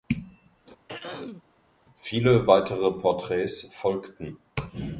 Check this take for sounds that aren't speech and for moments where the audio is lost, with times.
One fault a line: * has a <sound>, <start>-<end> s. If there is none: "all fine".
* has a throat clearing, 0.9-1.4 s